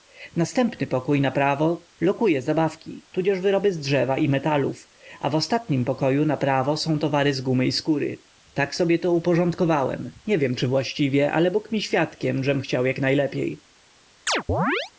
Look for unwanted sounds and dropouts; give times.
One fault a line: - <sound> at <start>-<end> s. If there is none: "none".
- chirp at 14.3-14.9 s